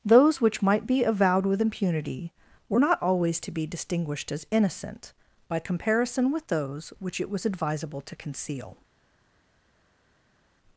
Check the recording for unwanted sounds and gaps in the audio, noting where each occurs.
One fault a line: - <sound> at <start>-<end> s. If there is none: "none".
none